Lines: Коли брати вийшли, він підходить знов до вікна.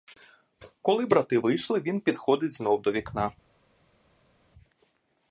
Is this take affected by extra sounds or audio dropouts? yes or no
no